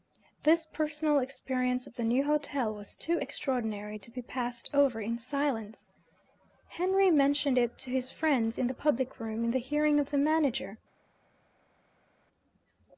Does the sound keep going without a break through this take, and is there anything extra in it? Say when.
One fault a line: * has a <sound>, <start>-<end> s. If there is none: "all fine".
all fine